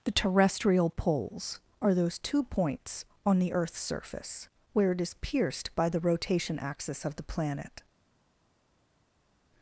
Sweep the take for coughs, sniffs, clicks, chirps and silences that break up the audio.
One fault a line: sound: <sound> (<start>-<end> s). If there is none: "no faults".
no faults